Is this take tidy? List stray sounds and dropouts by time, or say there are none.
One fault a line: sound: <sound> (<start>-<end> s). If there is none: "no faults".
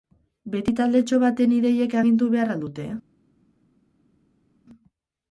no faults